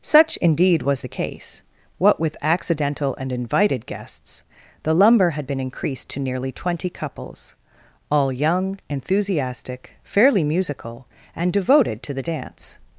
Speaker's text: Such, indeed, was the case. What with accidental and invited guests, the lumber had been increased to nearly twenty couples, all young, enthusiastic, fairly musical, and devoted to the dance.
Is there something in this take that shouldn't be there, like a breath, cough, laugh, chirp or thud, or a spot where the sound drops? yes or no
no